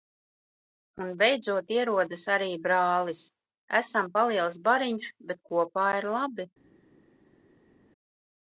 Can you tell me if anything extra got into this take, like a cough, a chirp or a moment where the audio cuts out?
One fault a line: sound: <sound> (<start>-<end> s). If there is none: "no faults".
no faults